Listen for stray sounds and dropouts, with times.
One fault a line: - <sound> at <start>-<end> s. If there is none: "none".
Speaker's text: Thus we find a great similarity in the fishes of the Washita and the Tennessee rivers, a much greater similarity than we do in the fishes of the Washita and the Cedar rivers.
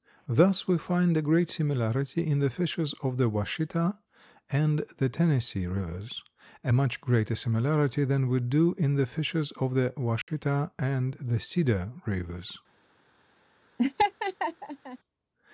- dropout at 10.2-10.3 s
- laugh at 13.8-15.0 s